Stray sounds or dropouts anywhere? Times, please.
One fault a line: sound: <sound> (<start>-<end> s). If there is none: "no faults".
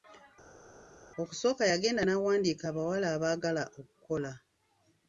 no faults